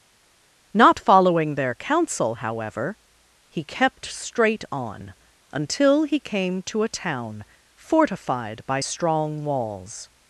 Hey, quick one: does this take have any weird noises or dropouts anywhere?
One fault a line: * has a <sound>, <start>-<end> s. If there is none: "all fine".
all fine